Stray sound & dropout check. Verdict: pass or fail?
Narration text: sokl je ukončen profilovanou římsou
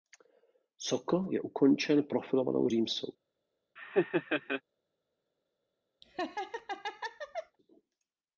fail